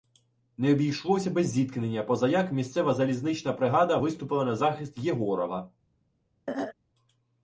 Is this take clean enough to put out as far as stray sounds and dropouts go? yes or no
no